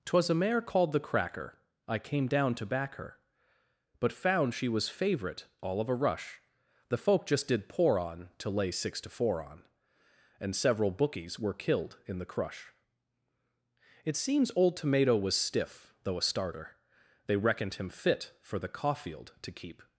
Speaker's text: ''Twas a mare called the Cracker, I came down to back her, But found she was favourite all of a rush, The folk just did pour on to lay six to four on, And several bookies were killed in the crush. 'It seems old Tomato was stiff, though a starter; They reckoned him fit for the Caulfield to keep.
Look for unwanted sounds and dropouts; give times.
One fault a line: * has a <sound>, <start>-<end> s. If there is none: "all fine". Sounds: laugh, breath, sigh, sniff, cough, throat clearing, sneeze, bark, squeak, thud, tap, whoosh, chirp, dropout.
all fine